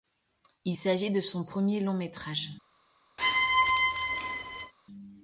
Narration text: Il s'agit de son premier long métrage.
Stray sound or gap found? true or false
true